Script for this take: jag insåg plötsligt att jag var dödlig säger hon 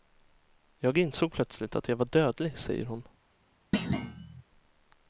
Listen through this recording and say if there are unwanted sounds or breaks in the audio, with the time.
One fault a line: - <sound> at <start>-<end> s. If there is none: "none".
- thud at 3.7-4.4 s